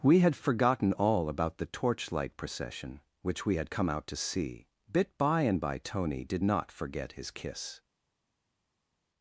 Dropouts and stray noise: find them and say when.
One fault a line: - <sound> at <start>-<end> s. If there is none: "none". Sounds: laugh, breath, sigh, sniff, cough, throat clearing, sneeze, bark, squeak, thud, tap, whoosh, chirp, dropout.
none